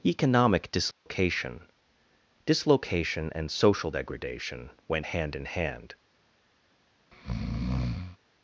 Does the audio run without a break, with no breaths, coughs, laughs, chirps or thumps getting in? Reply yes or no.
no